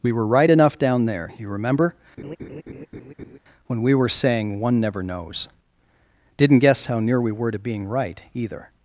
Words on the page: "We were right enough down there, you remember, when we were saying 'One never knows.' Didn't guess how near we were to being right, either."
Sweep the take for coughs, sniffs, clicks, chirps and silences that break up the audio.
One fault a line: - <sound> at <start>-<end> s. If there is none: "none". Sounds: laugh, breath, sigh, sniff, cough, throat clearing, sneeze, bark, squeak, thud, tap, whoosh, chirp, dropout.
- laugh at 2.2-3.4 s